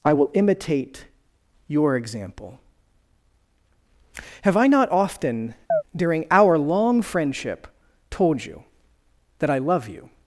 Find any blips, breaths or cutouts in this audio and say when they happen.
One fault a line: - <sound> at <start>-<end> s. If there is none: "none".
- chirp at 5.7-5.8 s